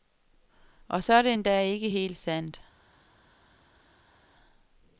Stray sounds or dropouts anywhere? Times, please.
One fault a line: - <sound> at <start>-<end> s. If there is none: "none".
none